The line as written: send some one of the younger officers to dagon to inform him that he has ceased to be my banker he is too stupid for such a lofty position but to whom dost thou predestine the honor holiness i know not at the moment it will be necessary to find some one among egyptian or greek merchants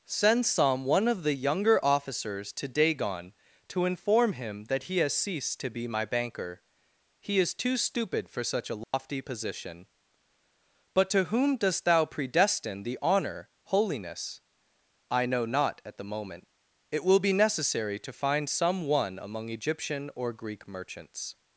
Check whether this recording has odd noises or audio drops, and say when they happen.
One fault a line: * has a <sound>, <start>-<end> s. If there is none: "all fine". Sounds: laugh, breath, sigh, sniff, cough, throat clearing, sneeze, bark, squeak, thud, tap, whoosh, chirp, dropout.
* has a dropout, 8.8-8.9 s